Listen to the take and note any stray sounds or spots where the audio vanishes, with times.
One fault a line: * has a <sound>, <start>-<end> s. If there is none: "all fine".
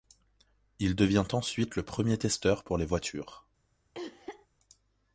* has a cough, 3.9-4.5 s